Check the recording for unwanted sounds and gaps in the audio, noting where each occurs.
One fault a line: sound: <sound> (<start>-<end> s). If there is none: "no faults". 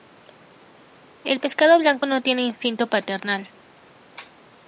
no faults